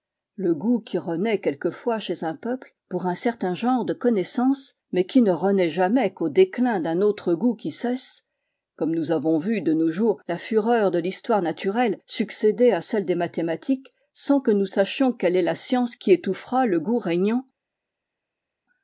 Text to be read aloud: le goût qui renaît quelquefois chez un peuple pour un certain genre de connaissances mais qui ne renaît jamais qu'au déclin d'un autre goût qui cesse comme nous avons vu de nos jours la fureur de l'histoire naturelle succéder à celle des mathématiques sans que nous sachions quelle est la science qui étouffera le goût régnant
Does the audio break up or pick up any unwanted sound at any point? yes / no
no